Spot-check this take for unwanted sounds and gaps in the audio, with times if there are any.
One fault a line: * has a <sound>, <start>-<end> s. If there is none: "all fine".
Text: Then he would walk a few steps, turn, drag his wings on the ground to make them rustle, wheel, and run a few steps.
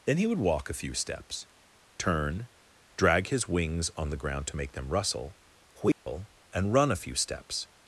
* has a dropout, 5.9-6.1 s